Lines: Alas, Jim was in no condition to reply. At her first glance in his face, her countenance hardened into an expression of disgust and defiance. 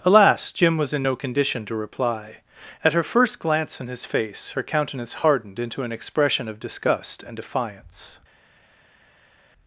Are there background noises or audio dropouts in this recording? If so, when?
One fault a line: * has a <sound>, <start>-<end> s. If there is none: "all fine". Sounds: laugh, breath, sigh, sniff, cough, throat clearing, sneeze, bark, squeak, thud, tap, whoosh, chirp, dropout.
all fine